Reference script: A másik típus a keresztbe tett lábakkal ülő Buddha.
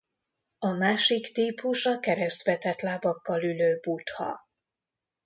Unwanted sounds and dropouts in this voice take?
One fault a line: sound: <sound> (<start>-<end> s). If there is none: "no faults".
no faults